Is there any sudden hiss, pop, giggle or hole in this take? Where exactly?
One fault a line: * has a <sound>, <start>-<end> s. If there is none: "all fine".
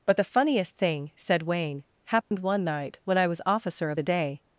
* has a dropout, 2.2-2.3 s